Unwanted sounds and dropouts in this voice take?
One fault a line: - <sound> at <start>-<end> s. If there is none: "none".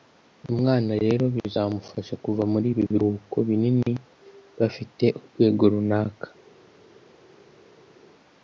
none